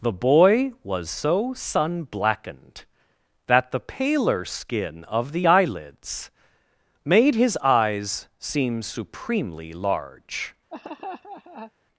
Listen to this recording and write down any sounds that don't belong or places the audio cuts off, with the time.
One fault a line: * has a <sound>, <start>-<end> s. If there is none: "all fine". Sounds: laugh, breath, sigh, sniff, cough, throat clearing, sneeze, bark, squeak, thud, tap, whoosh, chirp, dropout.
* has a laugh, 10.7-11.7 s